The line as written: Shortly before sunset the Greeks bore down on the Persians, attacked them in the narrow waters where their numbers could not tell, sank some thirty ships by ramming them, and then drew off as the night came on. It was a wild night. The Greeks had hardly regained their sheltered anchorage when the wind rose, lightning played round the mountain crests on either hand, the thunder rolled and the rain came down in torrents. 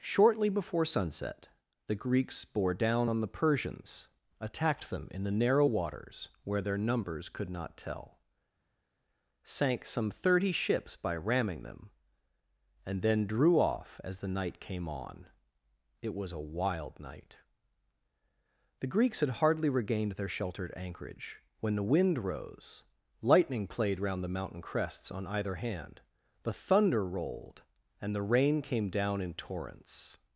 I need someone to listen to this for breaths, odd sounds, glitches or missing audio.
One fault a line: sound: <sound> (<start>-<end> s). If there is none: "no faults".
no faults